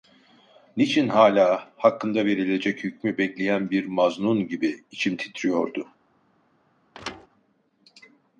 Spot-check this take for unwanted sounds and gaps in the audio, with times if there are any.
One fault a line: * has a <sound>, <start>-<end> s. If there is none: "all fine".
* has a thud, 6.9-7.3 s